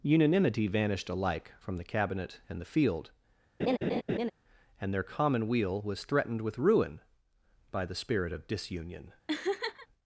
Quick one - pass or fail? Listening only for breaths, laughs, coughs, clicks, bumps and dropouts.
fail